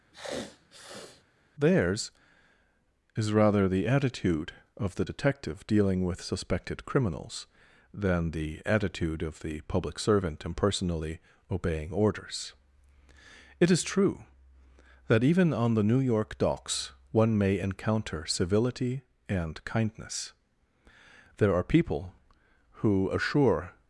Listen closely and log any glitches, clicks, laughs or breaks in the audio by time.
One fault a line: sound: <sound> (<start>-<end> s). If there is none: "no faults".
sound: sniff (0.1-1.2 s)